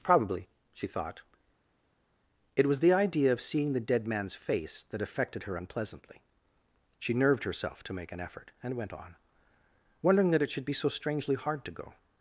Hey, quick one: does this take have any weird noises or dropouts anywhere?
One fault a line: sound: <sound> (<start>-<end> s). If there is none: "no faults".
no faults